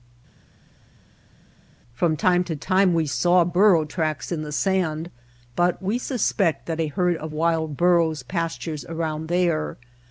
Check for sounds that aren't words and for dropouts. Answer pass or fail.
pass